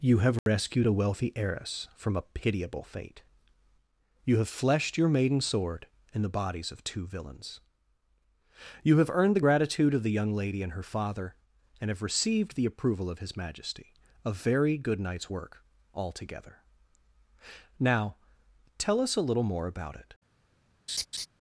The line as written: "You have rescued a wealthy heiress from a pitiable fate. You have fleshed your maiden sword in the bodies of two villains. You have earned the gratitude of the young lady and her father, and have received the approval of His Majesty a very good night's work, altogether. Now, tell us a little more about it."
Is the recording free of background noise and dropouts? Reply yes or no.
no